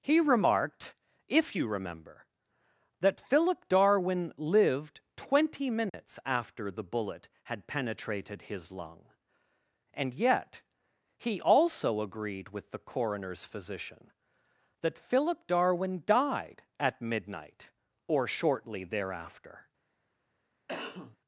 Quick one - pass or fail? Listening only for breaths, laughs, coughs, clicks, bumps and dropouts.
fail